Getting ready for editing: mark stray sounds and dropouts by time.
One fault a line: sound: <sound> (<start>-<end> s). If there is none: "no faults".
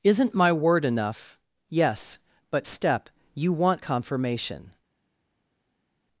no faults